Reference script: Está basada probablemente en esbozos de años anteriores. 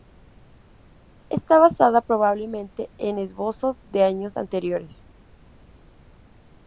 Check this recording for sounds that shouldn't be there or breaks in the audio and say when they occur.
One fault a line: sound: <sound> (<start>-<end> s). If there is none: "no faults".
no faults